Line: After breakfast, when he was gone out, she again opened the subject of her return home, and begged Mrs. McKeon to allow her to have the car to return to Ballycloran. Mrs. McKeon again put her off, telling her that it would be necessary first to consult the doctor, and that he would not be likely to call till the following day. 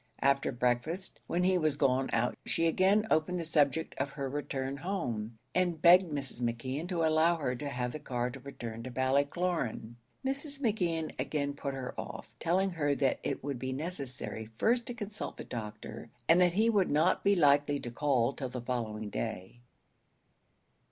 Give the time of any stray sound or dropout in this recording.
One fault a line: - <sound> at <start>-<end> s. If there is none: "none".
none